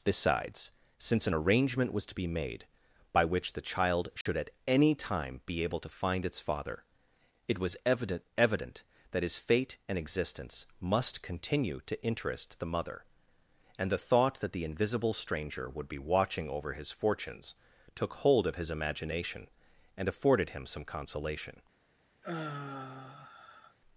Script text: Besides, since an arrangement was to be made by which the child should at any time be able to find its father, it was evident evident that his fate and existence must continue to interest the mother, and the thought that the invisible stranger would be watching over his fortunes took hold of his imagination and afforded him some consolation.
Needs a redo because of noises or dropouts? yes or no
yes